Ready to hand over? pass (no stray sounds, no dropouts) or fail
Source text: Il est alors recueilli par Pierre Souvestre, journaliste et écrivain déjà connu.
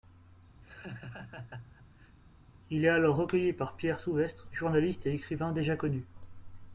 fail